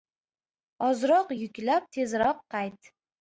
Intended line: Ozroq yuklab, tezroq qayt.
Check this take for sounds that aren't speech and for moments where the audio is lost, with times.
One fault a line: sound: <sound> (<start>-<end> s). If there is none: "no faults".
no faults